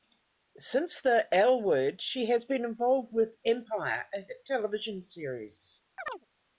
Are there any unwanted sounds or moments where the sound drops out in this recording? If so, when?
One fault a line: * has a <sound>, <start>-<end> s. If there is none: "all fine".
* has a chirp, 6.0-6.3 s